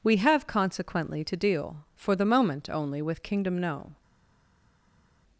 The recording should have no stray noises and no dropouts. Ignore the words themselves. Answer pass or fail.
pass